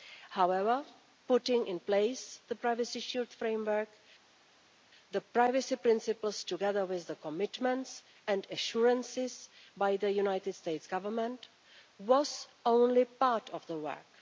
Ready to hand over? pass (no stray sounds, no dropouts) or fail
pass